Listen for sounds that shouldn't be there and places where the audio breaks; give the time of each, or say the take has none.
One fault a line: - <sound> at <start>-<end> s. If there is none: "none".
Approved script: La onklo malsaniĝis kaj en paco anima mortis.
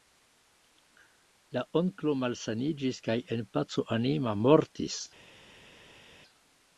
none